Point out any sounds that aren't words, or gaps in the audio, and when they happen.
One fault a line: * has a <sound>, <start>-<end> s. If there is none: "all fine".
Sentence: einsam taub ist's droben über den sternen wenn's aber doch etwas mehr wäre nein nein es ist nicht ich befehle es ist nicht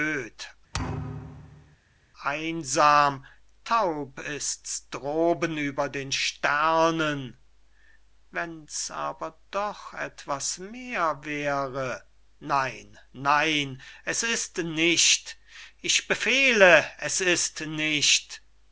* has a thud, 0.7-1.8 s